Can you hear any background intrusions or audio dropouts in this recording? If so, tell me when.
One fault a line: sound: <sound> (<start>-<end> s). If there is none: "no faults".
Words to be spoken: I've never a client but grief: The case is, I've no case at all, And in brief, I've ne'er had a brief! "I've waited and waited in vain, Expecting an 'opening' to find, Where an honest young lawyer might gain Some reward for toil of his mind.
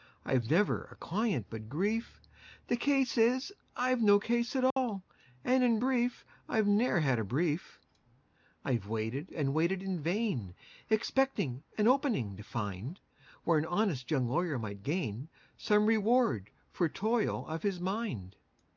sound: dropout (4.7-4.8 s)